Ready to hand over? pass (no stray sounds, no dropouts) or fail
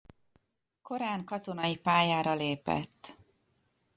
pass